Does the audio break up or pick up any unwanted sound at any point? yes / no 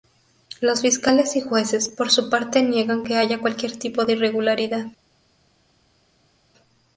no